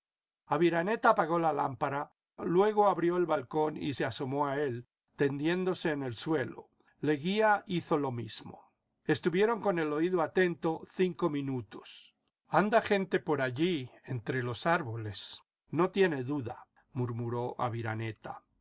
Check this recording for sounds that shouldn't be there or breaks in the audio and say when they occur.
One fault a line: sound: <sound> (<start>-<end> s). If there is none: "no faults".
no faults